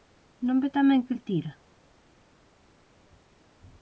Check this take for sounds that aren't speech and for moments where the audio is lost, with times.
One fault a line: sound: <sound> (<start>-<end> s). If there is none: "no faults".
no faults